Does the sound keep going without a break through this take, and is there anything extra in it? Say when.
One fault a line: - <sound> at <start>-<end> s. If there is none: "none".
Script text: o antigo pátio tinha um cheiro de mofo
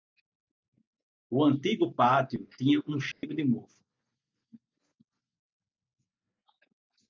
- dropout at 3.1-3.2 s